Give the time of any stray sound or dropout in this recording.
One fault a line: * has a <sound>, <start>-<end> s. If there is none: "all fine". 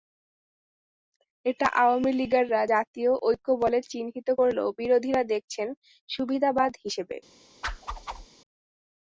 * has a whoosh, 7.6-8.3 s